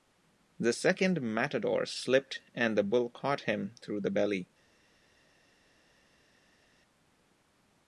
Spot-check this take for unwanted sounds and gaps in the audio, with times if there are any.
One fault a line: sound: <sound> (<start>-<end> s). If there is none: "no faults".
no faults